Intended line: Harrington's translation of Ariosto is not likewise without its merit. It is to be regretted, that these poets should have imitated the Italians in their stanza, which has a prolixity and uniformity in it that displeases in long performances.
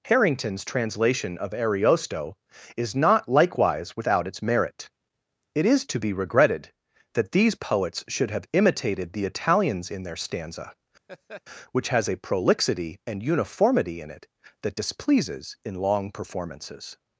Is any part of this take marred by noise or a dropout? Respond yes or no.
yes